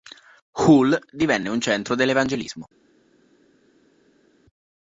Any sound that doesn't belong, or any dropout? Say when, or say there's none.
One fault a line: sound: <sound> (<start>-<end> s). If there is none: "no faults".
no faults